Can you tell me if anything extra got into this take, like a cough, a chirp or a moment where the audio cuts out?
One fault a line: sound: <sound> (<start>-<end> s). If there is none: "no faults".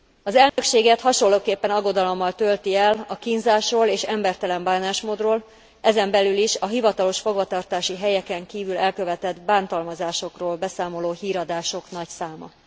sound: dropout (0.5-0.6 s)